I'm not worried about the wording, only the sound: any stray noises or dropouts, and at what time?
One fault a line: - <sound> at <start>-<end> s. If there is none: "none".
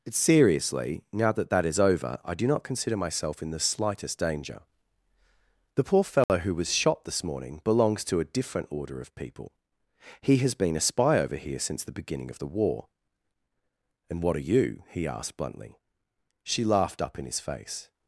- dropout at 6.2-6.3 s